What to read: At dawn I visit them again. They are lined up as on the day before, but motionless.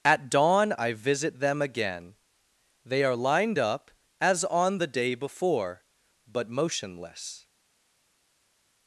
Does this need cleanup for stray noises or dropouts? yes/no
no